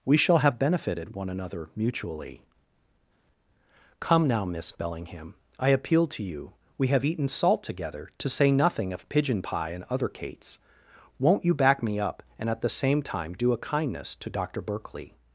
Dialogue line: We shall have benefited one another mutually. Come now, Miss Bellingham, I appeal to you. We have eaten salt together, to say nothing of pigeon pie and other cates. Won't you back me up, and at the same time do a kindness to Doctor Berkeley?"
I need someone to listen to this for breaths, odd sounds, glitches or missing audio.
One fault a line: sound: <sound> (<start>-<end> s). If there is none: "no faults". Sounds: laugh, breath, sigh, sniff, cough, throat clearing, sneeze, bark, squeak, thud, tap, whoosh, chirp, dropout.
no faults